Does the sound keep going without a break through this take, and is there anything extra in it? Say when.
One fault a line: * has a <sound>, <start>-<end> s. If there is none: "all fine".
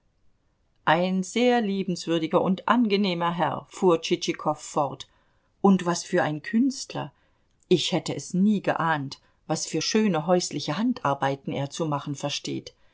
all fine